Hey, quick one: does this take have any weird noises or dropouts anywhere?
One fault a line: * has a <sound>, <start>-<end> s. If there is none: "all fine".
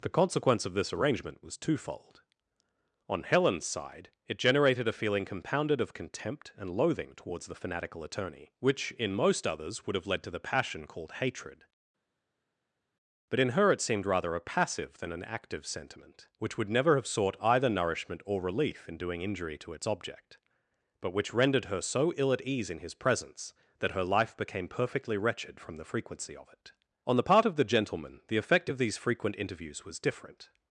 all fine